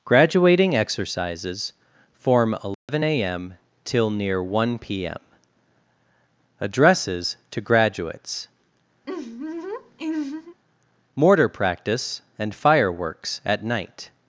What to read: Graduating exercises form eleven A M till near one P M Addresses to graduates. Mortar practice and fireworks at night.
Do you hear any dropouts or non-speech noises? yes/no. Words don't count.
yes